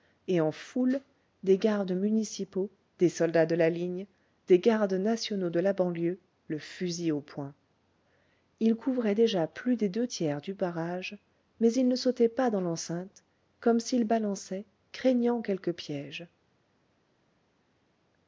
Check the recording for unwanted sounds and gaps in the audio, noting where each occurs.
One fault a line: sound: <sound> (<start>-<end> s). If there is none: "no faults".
no faults